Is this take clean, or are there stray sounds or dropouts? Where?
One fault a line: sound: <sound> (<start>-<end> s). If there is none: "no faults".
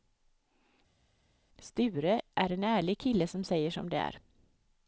no faults